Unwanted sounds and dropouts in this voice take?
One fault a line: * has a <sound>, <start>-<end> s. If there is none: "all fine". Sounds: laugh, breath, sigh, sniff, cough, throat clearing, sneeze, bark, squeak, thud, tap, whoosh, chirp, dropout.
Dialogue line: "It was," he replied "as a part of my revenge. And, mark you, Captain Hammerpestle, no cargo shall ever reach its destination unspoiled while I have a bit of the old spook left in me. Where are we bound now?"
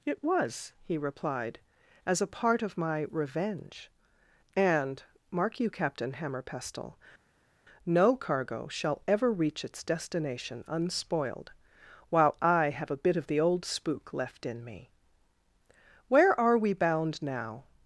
all fine